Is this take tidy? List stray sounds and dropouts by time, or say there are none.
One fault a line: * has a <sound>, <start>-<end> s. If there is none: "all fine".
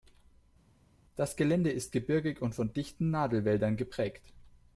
all fine